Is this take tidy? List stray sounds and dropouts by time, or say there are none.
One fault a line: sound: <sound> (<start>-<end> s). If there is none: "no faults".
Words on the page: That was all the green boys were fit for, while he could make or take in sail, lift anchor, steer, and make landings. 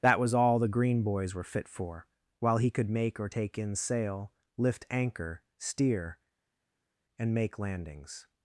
no faults